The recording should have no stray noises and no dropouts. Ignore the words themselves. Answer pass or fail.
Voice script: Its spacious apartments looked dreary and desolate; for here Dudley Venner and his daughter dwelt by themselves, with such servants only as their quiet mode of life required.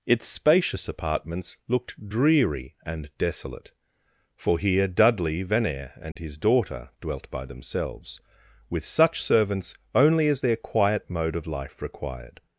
fail